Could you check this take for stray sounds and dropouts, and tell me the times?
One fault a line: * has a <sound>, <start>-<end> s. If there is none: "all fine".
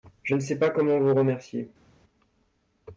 all fine